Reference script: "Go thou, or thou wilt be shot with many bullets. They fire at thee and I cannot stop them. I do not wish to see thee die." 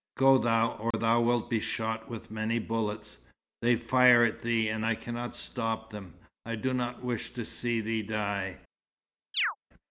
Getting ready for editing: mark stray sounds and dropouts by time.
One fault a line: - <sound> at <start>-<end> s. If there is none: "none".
- dropout at 0.9-0.9 s
- chirp at 9.3-9.6 s